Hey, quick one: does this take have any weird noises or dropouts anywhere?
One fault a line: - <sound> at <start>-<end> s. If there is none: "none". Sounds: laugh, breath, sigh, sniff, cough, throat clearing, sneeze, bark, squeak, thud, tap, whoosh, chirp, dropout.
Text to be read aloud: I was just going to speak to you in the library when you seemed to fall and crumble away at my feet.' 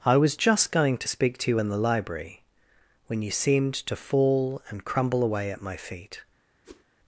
- whoosh at 6.6-6.8 s